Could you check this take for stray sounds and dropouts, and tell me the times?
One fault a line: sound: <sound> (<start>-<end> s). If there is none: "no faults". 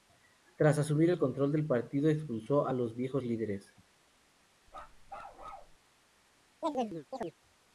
sound: bark (4.7-5.8 s)
sound: chirp (6.6-7.3 s)